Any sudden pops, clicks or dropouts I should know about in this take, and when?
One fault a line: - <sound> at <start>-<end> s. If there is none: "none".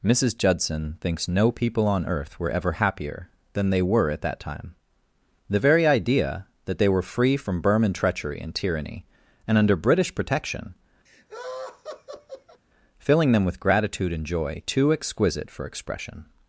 - laugh at 11.1-12.6 s